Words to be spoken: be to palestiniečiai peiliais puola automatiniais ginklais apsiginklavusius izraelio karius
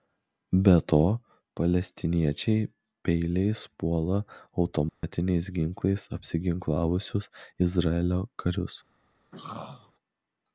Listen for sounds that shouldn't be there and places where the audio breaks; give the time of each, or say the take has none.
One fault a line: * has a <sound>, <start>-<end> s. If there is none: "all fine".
* has a dropout, 4.9-5.0 s
* has a throat clearing, 9.3-9.9 s